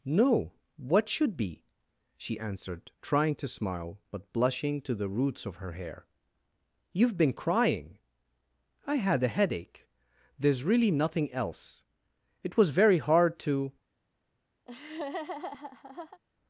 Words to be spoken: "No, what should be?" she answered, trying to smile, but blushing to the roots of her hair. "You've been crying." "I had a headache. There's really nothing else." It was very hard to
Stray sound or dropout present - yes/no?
yes